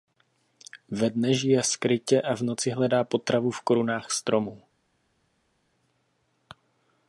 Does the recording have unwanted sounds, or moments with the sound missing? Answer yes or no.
no